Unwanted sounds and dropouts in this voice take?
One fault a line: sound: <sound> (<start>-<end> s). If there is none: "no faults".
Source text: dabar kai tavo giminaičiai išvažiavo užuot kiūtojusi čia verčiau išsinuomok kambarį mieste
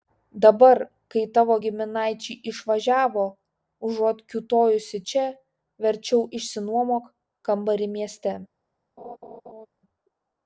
sound: laugh (9.0-9.7 s)